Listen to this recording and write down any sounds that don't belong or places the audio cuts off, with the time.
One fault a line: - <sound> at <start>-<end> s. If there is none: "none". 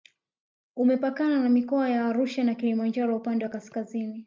none